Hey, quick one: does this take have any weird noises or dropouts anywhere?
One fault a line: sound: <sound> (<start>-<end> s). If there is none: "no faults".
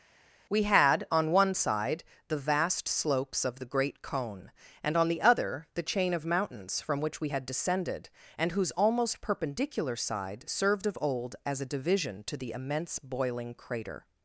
no faults